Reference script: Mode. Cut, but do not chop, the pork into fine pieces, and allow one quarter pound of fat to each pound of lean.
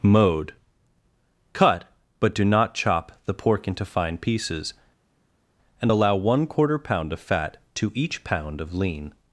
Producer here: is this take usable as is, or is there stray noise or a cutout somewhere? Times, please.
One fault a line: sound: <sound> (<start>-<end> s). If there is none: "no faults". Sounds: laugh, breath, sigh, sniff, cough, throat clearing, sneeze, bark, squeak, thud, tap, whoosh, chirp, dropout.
no faults